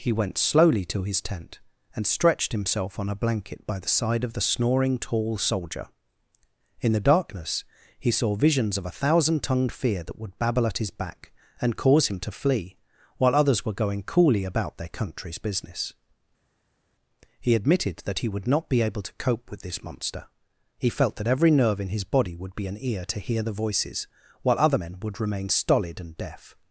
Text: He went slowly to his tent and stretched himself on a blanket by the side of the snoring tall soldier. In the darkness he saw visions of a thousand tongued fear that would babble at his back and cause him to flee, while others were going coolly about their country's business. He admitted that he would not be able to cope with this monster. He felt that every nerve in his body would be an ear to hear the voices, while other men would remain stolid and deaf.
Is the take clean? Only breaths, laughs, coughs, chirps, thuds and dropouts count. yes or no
yes